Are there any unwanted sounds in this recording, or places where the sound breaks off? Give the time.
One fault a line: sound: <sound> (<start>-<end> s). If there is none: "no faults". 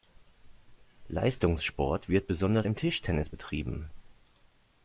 no faults